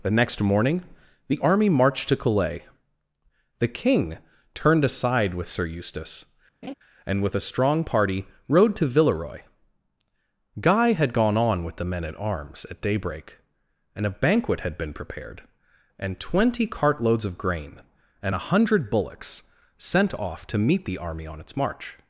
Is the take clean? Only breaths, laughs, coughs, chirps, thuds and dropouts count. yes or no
no